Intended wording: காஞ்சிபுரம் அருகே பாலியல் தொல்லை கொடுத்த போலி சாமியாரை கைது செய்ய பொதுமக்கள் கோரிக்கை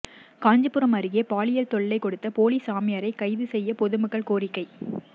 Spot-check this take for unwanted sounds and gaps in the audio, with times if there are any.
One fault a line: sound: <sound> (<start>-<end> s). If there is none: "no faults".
no faults